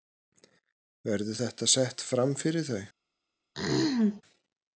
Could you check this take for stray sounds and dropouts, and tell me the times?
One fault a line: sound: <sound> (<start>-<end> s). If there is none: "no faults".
sound: throat clearing (3.5-4.2 s)